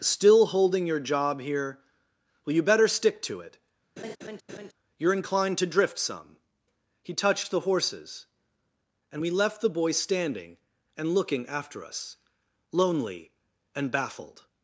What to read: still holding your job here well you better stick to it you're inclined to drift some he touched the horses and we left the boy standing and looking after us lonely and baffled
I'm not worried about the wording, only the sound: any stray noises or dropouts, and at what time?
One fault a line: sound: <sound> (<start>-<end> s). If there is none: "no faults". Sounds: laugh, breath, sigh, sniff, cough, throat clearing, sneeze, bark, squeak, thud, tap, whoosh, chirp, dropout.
sound: laugh (4.0-4.7 s)